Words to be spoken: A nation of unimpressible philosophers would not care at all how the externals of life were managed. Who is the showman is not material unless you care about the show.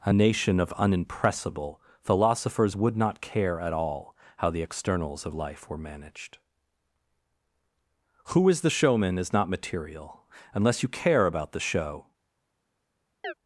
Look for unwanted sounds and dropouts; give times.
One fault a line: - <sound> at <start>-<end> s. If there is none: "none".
- chirp at 13.2-13.3 s